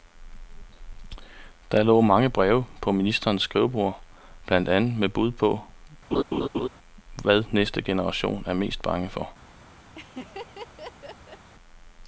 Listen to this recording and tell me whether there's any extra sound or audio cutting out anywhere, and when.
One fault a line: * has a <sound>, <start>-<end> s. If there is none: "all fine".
* has a laugh, 6.1-6.7 s
* has a laugh, 9.9-11.5 s